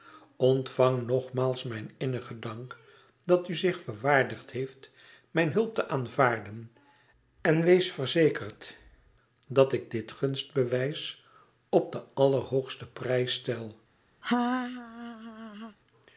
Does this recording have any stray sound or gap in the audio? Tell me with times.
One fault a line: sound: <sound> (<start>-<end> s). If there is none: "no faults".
sound: laugh (14.2-15.8 s)